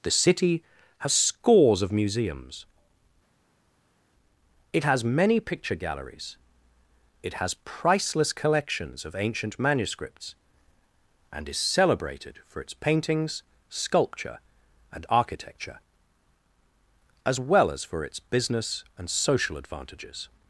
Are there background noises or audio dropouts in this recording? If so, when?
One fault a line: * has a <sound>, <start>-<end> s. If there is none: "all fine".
all fine